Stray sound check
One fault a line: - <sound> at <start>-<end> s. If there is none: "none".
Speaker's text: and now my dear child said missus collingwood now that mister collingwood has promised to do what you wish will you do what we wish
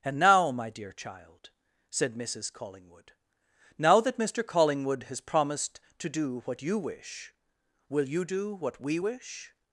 none